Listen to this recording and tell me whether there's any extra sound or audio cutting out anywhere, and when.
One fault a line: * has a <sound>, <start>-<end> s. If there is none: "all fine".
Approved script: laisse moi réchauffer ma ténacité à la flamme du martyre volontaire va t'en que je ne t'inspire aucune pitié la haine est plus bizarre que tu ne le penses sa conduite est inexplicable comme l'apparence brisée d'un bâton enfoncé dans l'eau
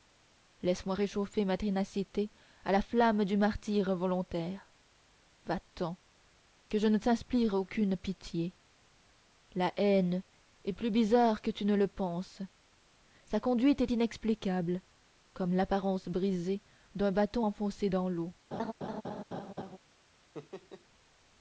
* has a laugh, 18.5-19.8 s
* has a laugh, 20.3-20.9 s